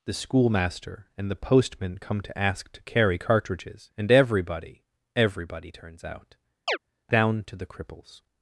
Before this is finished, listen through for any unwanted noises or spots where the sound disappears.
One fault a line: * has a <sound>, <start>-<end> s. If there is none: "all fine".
* has a chirp, 6.7-6.8 s